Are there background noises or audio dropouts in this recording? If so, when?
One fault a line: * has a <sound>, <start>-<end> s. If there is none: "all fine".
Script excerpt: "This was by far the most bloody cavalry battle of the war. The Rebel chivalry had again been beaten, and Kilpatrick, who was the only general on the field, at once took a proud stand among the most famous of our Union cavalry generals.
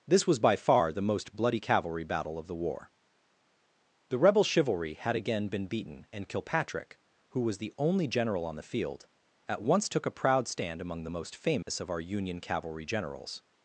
* has a dropout, 11.6-11.7 s